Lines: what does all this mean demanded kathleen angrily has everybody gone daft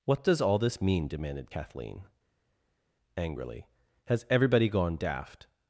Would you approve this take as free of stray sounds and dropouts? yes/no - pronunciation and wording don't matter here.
yes